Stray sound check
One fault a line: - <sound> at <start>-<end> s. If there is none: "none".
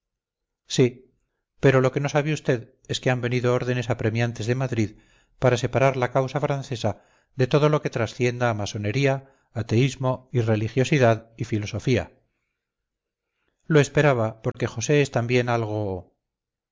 - dropout at 14.5-14.5 s